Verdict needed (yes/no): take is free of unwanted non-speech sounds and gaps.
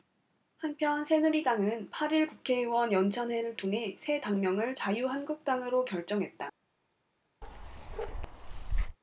no